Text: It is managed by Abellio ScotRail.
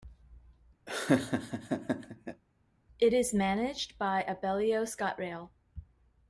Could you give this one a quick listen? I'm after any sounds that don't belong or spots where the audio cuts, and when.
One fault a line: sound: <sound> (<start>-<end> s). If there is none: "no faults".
sound: laugh (0.9-2.4 s)